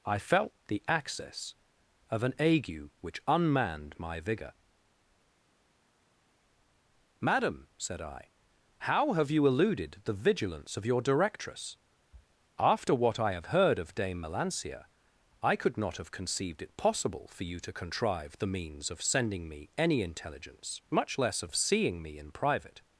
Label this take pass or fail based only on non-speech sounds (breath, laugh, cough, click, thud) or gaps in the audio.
pass